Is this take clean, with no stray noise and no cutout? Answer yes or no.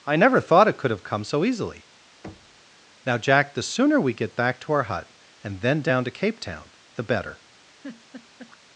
no